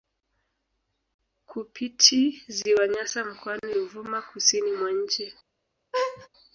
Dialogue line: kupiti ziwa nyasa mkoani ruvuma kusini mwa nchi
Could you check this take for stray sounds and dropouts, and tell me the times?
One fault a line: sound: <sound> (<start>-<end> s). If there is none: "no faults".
sound: laugh (5.9-6.3 s)